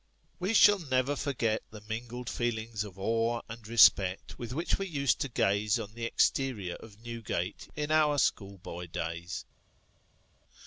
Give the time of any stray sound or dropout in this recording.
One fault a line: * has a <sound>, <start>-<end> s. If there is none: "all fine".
all fine